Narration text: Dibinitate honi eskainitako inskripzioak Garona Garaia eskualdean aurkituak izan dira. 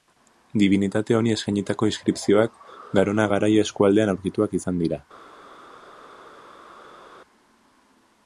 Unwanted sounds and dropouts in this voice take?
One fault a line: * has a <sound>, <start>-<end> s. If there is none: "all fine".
all fine